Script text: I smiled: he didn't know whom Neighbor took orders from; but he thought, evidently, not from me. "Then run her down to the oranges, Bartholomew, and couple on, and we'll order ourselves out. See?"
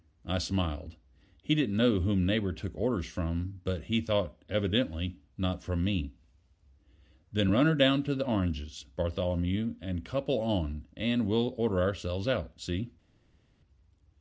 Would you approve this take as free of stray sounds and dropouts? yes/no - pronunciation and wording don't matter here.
yes